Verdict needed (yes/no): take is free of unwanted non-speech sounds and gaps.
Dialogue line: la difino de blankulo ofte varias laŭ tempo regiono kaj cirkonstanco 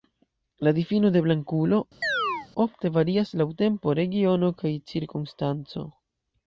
no